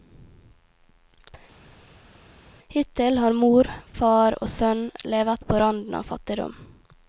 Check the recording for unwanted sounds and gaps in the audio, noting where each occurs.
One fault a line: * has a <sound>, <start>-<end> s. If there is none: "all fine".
all fine